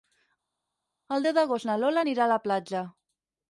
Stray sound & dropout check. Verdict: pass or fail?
pass